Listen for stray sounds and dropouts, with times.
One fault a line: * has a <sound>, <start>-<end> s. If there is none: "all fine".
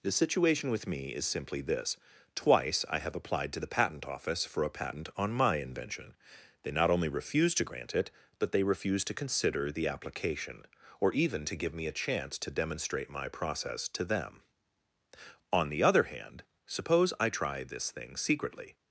all fine